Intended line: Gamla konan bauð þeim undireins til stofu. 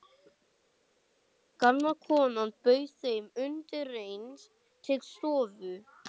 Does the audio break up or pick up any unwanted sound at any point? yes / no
no